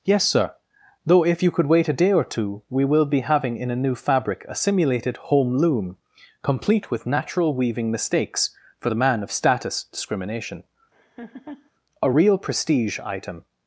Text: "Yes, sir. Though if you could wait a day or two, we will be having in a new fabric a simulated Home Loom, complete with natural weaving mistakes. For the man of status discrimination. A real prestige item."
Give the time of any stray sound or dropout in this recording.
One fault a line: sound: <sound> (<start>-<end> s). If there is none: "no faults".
sound: laugh (10.9-11.7 s)